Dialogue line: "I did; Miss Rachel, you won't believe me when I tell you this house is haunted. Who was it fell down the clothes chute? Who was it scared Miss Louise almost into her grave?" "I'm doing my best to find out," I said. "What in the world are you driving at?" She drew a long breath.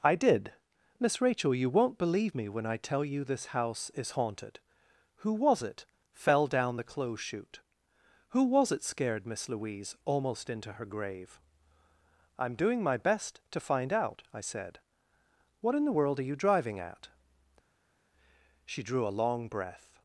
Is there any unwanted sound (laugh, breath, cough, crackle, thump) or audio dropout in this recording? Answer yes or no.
no